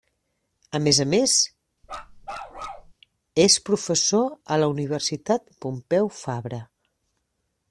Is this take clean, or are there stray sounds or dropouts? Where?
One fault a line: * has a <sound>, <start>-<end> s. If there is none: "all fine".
* has a bark, 1.8-2.9 s